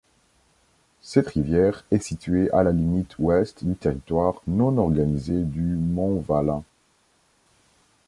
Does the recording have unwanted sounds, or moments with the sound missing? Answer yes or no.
no